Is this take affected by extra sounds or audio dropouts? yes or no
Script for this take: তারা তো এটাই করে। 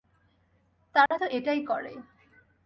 yes